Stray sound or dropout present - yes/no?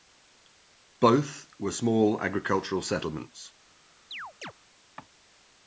yes